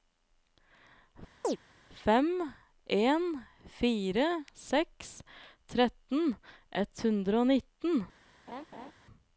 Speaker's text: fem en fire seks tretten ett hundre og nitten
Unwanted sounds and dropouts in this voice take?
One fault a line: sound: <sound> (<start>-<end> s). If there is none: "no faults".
sound: chirp (1.4-1.6 s)
sound: laugh (8.5-8.9 s)